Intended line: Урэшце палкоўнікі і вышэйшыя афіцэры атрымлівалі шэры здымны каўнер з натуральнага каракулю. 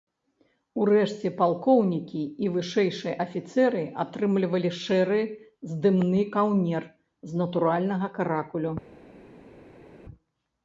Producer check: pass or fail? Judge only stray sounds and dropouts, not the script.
pass